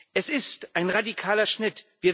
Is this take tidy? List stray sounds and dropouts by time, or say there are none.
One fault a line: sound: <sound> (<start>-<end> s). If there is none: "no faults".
no faults